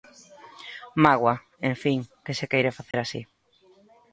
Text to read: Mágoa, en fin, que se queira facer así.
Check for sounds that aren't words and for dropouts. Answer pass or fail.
fail